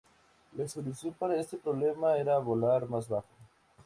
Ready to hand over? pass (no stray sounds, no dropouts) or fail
pass